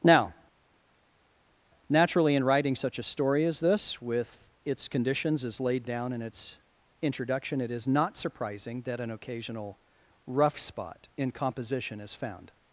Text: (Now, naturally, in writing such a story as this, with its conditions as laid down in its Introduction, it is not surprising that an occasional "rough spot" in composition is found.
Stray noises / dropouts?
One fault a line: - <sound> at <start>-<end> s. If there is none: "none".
none